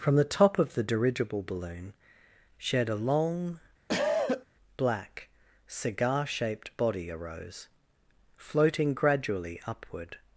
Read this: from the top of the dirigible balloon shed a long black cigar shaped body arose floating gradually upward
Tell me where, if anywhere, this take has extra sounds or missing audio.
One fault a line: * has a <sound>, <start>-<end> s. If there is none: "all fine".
* has a cough, 3.9-4.5 s